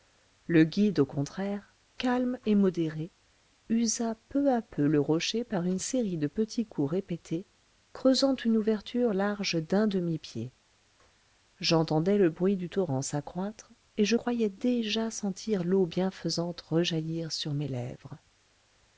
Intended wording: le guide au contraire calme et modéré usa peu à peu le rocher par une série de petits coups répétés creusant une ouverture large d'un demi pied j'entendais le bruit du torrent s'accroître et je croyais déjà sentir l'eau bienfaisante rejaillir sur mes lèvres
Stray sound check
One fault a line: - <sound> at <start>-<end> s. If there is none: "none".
none